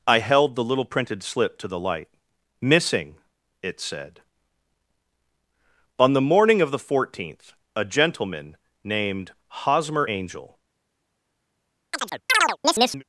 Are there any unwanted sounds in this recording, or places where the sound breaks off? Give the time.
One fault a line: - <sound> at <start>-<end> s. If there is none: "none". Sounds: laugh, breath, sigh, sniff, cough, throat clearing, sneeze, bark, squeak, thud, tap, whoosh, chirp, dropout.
- chirp at 11.9-13.0 s